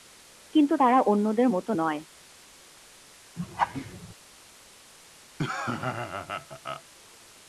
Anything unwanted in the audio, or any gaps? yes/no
yes